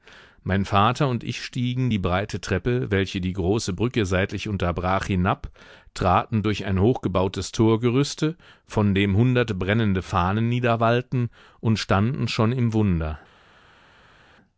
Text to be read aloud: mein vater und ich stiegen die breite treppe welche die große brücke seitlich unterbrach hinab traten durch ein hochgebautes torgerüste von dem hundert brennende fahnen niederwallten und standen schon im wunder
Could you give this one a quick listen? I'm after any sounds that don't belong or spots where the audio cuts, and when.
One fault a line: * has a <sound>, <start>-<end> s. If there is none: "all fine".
all fine